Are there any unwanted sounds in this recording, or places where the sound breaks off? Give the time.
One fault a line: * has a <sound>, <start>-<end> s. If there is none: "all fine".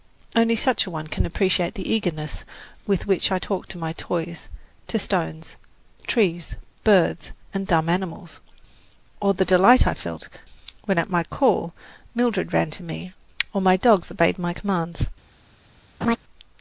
* has a laugh, 16.0-16.2 s